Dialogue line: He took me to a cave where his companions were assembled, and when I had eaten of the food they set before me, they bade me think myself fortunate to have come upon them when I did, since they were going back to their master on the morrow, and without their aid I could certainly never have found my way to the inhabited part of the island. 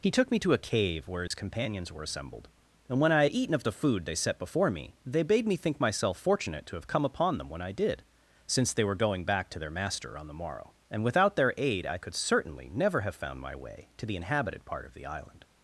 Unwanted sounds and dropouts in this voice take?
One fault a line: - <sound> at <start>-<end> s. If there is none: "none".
- dropout at 1.3-1.3 s